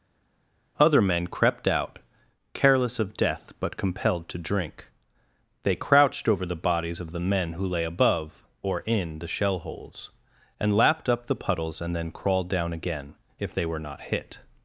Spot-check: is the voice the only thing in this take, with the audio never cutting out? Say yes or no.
yes